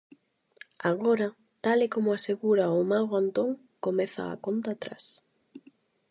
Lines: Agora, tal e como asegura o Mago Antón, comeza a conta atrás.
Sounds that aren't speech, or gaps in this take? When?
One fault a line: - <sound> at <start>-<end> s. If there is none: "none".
none